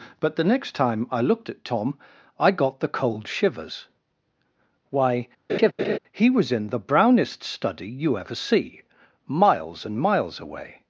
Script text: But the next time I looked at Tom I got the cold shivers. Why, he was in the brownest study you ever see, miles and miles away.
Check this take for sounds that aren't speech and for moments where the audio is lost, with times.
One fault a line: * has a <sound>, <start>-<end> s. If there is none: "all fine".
* has a laugh, 5.5-6.0 s